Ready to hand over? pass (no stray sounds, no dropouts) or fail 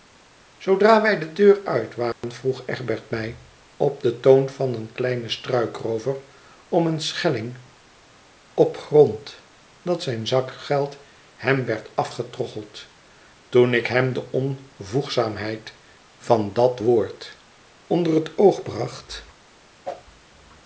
fail